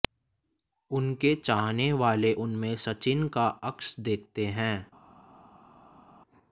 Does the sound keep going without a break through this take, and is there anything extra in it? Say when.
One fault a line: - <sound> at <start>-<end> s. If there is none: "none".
none